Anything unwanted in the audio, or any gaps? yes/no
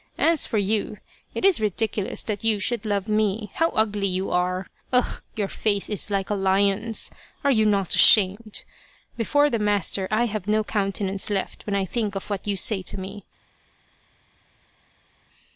no